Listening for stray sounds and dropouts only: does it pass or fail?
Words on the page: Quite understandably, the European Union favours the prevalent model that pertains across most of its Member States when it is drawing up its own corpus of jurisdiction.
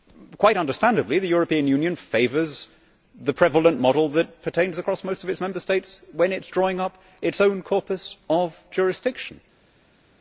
pass